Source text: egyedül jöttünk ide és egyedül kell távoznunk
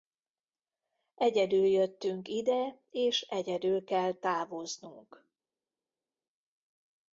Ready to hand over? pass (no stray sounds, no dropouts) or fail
pass